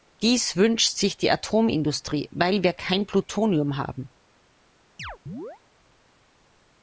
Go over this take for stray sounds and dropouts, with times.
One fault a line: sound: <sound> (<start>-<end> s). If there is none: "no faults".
sound: chirp (5.0-5.6 s)